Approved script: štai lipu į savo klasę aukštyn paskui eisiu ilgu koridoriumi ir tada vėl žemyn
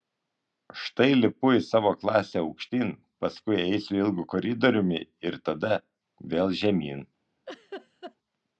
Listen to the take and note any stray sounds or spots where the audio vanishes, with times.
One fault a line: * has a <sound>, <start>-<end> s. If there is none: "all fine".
* has a laugh, 7.5-8.2 s